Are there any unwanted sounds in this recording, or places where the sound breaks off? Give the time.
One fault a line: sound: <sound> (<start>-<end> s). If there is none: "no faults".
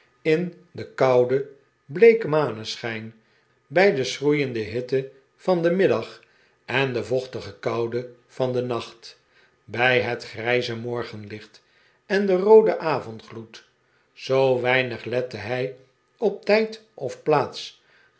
no faults